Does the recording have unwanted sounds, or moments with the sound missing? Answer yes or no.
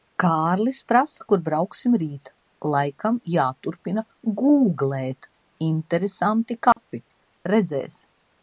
yes